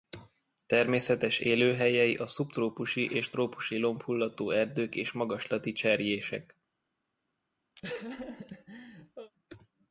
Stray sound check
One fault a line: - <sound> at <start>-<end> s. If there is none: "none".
- laugh at 7.8-9.3 s